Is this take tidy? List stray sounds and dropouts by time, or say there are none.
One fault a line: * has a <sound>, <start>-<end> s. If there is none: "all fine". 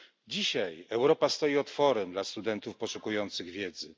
all fine